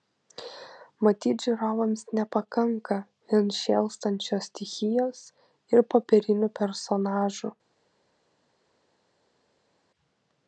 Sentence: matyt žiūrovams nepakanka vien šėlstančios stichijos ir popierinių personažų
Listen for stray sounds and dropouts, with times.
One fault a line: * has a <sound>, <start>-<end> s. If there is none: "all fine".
all fine